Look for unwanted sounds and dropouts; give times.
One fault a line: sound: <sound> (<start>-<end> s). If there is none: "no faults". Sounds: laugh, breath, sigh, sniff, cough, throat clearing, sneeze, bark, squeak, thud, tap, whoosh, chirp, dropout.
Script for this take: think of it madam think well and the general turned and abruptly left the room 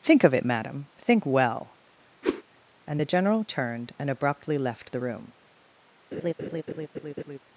sound: whoosh (2.2-2.4 s)
sound: laugh (6.1-7.4 s)